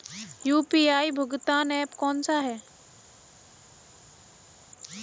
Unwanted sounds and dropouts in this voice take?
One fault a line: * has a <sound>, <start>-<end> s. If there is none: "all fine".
all fine